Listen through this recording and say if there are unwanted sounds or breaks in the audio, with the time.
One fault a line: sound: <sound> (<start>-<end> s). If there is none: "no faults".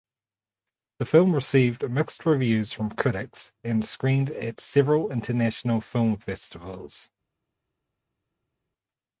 no faults